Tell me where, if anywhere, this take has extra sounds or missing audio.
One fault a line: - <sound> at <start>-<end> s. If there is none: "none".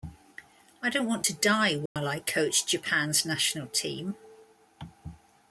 - dropout at 1.9-2.0 s